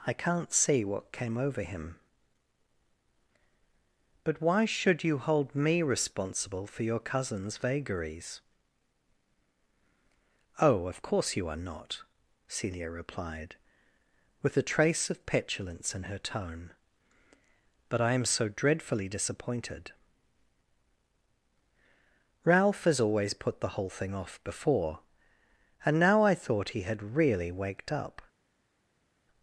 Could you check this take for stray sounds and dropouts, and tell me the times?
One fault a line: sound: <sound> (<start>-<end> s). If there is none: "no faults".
no faults